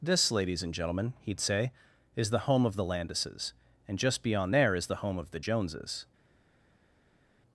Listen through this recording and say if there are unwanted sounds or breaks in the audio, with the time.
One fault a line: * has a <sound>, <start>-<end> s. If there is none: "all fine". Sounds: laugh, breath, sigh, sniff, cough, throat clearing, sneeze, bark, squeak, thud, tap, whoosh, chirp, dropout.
all fine